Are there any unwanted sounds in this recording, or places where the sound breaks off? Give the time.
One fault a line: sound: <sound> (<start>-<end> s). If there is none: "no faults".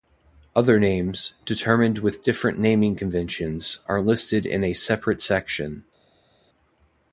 no faults